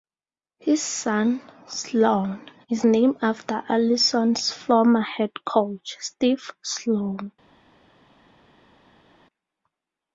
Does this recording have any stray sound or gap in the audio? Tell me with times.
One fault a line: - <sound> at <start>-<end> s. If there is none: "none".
none